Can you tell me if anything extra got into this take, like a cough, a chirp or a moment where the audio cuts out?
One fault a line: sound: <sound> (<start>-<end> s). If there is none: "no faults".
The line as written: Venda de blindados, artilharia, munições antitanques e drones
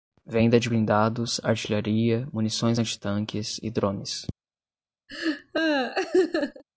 sound: laugh (5.1-6.6 s)